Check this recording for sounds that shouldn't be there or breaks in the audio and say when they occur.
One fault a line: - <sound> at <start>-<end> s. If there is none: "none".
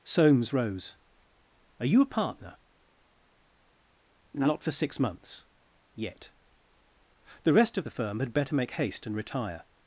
none